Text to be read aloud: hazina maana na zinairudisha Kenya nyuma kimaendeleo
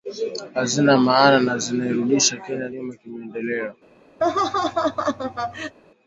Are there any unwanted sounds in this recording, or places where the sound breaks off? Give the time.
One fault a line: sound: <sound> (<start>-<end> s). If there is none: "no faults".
sound: laugh (4.2-5.7 s)